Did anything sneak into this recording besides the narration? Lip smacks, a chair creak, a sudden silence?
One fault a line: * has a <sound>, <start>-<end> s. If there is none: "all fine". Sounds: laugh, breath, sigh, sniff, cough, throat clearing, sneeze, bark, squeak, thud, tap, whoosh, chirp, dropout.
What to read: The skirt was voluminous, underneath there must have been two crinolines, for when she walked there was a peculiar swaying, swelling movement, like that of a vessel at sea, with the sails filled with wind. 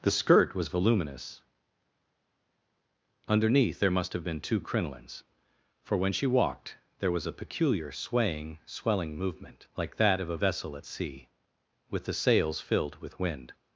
all fine